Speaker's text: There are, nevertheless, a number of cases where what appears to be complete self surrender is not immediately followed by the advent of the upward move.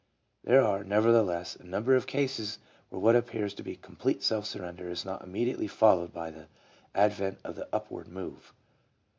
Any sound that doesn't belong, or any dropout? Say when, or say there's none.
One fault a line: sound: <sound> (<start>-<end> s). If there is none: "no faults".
no faults